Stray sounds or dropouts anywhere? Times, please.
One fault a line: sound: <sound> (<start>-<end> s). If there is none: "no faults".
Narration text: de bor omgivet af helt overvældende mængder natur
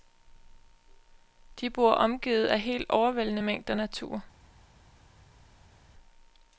no faults